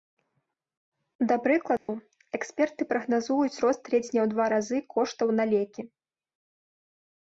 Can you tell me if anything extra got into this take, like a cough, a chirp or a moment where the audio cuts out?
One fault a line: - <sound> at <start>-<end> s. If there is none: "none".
- dropout at 1.8-1.9 s